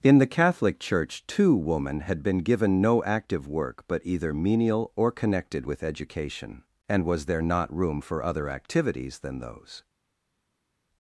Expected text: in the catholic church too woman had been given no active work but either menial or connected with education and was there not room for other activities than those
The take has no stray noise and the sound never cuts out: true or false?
true